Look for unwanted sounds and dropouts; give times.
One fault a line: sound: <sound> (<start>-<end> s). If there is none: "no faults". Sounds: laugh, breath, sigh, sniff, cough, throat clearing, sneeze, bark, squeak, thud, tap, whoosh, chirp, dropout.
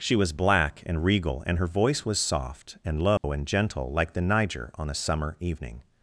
sound: dropout (3.2-3.2 s)